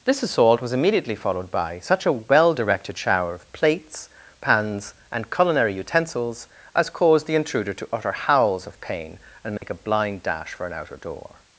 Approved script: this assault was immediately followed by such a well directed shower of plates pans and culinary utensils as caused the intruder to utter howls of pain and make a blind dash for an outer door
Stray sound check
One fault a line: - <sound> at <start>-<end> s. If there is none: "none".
- dropout at 9.6-9.6 s